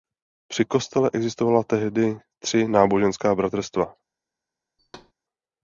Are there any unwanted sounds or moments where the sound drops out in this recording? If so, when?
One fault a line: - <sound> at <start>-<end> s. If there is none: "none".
- thud at 4.8-5.1 s